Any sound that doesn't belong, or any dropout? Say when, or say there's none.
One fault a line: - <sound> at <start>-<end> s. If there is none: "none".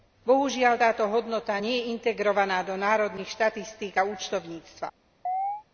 - chirp at 5.3-5.6 s